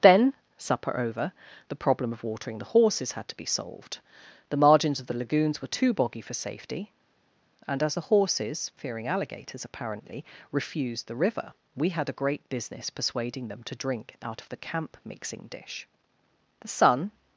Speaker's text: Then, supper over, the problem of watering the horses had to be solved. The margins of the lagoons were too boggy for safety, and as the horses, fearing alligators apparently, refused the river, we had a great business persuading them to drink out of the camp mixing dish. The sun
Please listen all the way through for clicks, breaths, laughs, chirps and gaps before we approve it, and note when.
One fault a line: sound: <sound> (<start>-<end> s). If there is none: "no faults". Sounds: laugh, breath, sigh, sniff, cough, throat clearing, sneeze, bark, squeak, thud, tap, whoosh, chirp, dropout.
no faults